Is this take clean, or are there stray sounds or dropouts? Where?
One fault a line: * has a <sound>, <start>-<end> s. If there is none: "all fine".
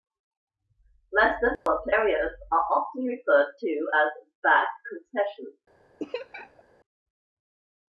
* has a dropout, 1.6-1.7 s
* has a laugh, 6.0-6.6 s